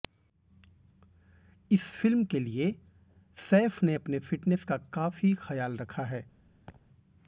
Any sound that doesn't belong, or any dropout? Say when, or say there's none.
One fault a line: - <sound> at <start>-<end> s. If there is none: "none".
- laugh at 6.7-6.8 s